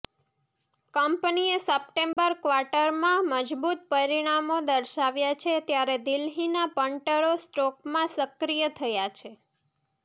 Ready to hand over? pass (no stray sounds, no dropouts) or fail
fail